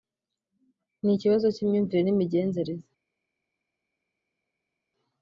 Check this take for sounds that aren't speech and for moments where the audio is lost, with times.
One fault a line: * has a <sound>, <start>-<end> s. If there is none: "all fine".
all fine